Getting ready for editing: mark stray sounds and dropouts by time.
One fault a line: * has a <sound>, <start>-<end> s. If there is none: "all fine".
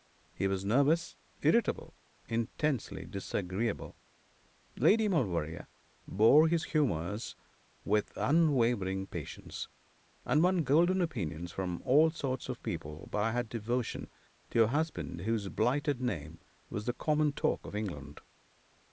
all fine